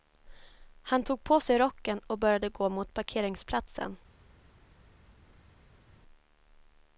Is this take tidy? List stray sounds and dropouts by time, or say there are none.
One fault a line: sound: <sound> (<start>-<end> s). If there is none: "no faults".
no faults